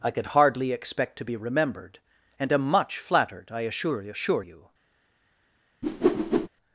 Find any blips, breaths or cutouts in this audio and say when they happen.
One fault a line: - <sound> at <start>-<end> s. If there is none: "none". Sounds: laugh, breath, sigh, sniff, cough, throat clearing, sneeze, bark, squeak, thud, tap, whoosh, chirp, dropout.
- whoosh at 5.8-6.5 s